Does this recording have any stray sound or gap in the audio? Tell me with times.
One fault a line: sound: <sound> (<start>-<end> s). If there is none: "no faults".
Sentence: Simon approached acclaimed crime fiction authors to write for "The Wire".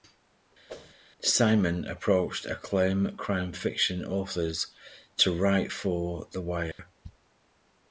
sound: whoosh (0.7-0.9 s)
sound: dropout (6.7-6.8 s)